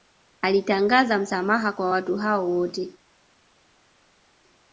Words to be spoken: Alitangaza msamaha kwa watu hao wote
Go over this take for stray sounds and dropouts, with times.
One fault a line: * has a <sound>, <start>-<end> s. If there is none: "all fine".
all fine